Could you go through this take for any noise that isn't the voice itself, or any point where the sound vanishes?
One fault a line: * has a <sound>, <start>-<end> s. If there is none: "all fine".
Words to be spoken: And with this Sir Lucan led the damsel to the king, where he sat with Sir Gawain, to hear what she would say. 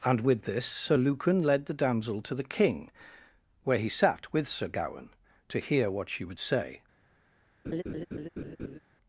* has a laugh, 7.6-8.8 s